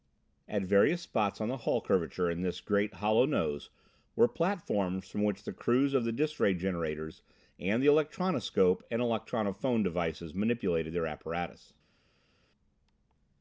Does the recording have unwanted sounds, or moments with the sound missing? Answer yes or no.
no